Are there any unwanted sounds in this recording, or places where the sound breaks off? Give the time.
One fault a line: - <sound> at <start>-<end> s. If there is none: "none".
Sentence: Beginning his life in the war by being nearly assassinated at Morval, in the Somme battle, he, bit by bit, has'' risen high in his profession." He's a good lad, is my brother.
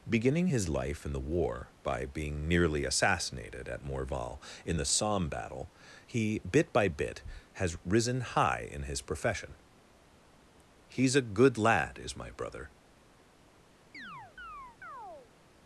- chirp at 13.9-15.3 s